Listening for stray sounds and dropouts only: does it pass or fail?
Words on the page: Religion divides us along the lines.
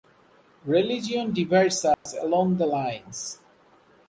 fail